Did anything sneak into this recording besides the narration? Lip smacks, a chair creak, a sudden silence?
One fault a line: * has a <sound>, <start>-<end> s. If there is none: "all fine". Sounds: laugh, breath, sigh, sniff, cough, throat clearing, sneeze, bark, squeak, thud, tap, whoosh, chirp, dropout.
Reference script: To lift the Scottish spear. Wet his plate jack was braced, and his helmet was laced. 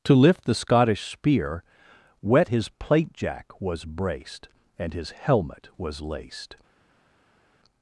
all fine